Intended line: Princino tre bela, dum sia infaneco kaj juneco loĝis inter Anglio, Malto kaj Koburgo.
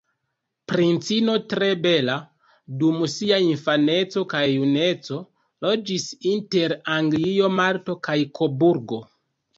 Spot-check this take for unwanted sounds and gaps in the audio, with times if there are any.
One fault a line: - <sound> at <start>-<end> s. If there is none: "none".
none